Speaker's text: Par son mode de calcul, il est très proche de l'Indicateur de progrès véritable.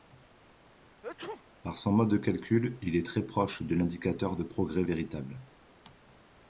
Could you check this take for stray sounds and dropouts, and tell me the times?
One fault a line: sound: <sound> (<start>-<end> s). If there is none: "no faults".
sound: sneeze (1.0-1.5 s)